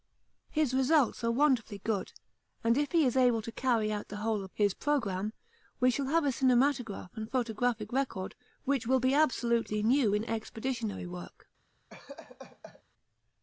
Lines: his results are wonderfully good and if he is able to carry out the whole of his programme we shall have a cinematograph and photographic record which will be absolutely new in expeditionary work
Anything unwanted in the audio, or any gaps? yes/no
yes